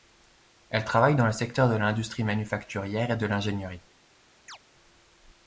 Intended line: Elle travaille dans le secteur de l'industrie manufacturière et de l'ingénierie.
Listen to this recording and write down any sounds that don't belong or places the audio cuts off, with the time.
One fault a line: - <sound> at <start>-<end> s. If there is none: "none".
- chirp at 4.5-4.6 s